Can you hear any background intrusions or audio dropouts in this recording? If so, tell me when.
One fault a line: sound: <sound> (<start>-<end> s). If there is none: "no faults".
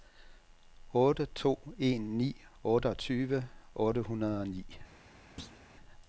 sound: thud (5.4-5.6 s)